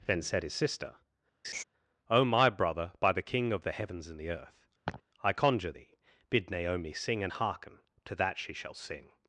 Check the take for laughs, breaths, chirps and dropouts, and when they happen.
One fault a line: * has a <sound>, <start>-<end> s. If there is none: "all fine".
* has a laugh, 1.4-1.6 s
* has a laugh, 4.8-5.0 s